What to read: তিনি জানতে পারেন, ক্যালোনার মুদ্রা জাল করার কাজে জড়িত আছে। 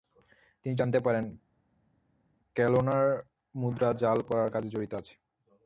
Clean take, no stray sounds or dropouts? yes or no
yes